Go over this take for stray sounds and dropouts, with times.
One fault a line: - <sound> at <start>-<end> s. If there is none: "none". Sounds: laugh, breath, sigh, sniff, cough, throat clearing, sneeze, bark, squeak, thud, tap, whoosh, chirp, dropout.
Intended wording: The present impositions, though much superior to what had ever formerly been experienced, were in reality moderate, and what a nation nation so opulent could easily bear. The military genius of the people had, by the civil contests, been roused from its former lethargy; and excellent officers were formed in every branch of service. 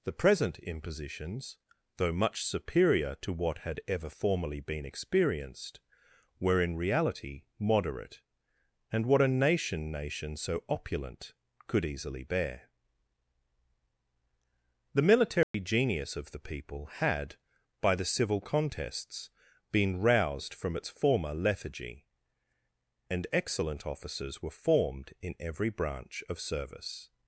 - dropout at 15.4-15.5 s